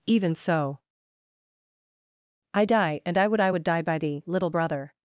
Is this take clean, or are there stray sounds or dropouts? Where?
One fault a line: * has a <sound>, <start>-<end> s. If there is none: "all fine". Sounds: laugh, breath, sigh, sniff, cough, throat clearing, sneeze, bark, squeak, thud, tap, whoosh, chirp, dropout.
all fine